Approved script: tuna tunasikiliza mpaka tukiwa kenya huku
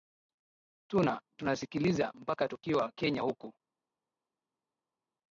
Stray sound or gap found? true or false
false